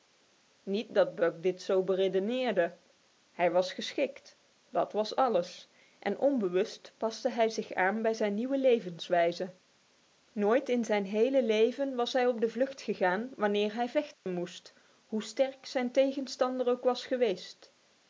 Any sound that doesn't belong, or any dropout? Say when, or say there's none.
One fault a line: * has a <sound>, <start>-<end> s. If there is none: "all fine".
* has a dropout, 14.1-14.3 s